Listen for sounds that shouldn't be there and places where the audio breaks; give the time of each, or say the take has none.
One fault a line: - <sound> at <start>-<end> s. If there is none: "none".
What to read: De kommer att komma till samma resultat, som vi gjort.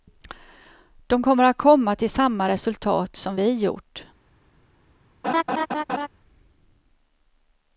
- laugh at 5.2-6.1 s